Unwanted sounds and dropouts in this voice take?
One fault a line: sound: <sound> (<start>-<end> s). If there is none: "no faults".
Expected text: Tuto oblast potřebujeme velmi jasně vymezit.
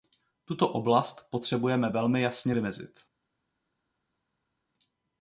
no faults